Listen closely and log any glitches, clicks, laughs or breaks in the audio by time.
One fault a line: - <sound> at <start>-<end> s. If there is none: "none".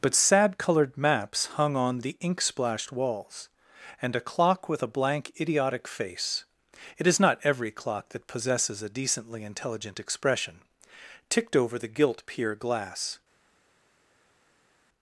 none